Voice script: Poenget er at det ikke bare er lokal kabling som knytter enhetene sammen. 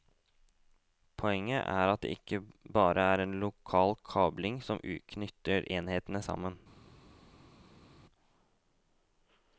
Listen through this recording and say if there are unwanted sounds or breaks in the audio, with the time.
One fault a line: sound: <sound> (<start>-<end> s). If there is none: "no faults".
no faults